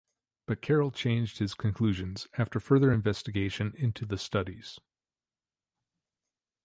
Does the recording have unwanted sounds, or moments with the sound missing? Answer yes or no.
no